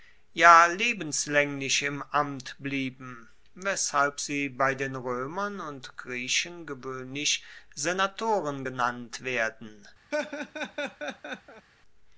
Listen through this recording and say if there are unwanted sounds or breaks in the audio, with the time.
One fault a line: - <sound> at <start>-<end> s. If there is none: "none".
- laugh at 10.1-11.7 s